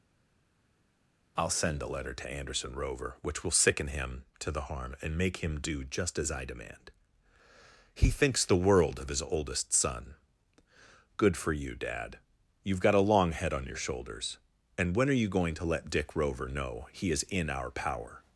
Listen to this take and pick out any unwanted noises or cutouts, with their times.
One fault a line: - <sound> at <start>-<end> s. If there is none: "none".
none